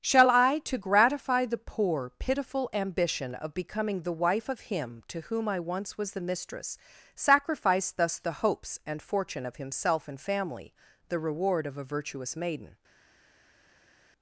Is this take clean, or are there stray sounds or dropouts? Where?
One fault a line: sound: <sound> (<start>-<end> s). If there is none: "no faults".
no faults